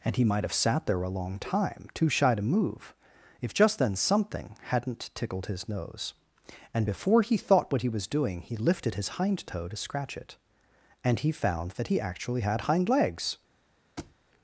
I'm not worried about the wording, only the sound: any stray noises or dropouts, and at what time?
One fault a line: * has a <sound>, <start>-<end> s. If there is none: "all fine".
* has a thud, 14.0-14.2 s